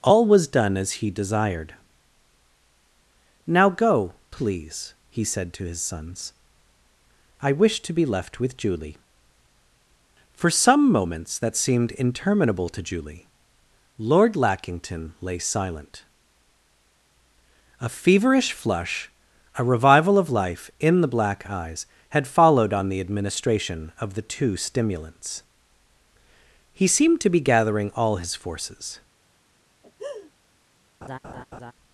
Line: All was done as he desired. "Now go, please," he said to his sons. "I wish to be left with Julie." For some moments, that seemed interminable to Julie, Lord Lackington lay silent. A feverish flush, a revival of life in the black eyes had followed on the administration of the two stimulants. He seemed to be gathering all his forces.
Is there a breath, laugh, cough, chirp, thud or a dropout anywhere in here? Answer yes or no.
yes